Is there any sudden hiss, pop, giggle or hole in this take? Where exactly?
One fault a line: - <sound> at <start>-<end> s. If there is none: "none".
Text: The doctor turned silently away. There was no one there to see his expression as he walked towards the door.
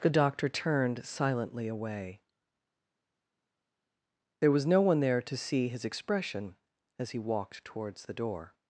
none